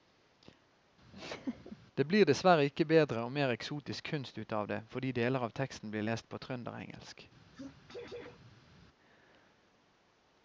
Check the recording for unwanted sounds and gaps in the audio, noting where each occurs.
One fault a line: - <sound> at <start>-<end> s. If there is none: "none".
- laugh at 1.1-1.8 s
- sneeze at 7.5-8.8 s